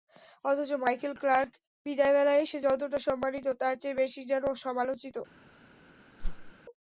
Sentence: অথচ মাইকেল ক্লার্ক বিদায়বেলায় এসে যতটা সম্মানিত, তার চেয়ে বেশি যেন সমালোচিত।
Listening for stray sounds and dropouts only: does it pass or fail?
fail